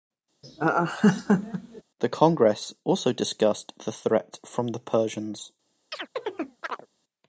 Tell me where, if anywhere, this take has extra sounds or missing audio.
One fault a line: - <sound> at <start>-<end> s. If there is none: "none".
- laugh at 0.4-1.8 s
- chirp at 5.9-6.9 s